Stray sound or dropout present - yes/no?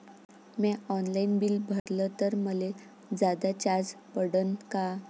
yes